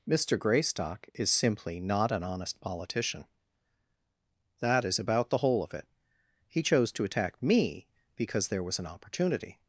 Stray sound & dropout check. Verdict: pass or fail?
pass